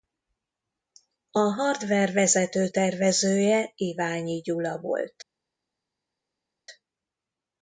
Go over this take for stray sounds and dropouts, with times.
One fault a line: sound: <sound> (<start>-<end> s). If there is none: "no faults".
no faults